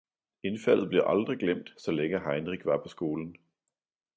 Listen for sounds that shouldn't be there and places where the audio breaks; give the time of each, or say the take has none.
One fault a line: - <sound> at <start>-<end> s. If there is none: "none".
none